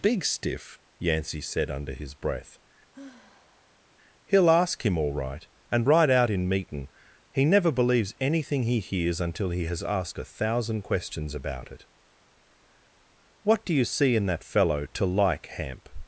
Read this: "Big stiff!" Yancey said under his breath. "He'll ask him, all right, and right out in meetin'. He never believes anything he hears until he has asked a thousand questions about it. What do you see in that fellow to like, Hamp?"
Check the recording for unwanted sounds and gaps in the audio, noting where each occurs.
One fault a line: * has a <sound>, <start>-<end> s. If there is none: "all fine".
* has a sigh, 2.9-3.9 s